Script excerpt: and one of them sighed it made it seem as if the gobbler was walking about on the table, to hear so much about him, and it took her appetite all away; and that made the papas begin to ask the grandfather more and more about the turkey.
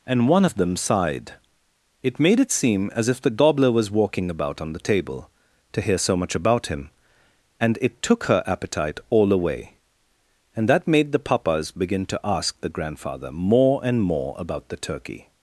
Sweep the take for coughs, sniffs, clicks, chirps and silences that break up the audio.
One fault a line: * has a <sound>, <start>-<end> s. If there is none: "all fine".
all fine